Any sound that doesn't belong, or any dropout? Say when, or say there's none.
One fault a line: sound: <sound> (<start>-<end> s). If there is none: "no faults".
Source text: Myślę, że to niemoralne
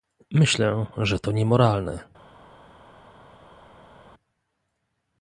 no faults